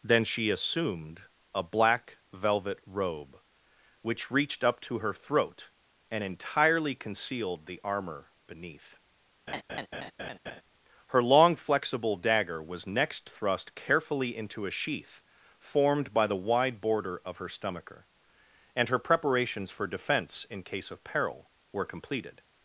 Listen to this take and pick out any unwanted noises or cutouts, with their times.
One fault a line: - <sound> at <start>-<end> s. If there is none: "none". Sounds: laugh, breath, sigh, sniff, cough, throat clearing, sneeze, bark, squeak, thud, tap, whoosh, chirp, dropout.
- laugh at 9.5-10.6 s